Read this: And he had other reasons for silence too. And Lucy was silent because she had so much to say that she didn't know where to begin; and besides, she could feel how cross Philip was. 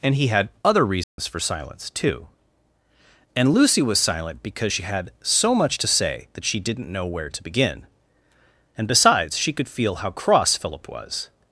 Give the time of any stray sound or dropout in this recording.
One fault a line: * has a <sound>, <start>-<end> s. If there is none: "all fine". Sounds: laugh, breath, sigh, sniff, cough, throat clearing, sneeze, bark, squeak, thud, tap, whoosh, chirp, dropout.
* has a dropout, 1.0-1.2 s